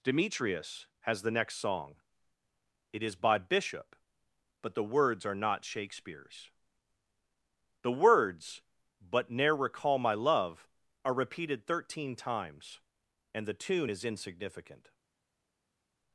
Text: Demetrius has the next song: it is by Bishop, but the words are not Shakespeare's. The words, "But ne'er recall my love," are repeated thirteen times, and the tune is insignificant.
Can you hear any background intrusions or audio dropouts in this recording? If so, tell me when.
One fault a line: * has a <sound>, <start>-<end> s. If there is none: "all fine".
all fine